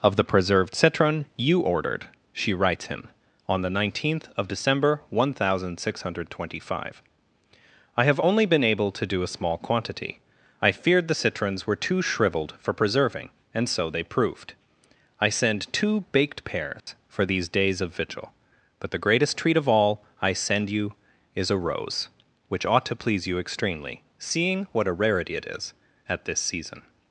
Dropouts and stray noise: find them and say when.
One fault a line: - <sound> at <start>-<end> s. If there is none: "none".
- dropout at 16.8-16.9 s